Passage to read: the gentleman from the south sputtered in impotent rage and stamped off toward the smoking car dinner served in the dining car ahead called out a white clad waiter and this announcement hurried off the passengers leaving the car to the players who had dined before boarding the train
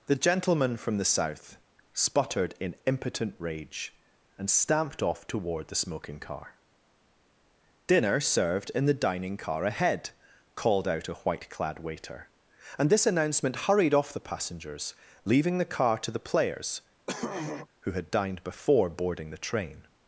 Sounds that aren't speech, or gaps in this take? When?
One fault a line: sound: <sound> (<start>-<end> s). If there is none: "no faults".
sound: throat clearing (17.1-17.7 s)